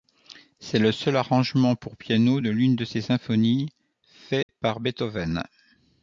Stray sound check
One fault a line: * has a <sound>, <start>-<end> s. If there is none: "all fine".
* has a dropout, 4.4-4.5 s